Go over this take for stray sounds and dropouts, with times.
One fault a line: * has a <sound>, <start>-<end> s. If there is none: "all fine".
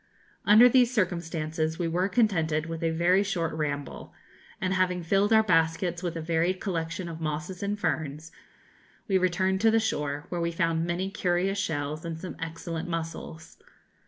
all fine